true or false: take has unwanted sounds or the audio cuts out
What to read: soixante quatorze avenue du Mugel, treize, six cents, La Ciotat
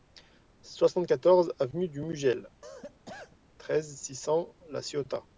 true